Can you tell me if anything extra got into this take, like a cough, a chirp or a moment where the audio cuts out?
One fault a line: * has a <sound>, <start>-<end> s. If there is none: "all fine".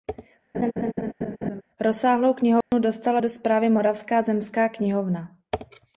* has a laugh, 0.5-1.6 s
* has a dropout, 2.6-2.7 s